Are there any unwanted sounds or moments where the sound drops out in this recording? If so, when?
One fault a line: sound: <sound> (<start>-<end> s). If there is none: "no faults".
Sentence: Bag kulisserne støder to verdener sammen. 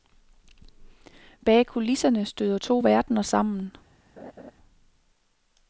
sound: laugh (4.2-4.5 s)